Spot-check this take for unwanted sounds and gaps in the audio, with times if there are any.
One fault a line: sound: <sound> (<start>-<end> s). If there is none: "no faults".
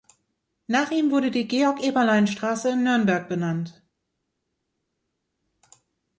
no faults